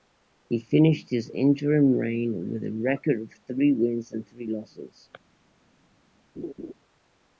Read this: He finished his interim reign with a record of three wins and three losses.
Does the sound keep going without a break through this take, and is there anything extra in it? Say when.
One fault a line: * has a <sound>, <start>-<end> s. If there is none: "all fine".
* has a laugh, 6.4-6.7 s